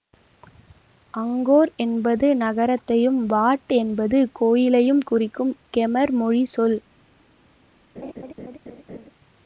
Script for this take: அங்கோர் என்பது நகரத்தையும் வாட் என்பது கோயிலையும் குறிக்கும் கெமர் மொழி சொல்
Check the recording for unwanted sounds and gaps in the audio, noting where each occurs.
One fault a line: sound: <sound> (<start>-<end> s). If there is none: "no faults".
sound: laugh (8.0-9.1 s)